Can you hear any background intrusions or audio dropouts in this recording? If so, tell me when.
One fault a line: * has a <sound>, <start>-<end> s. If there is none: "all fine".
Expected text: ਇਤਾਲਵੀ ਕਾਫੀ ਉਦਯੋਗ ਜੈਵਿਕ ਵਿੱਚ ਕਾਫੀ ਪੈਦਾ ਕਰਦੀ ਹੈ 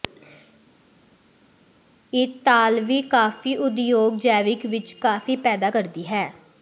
all fine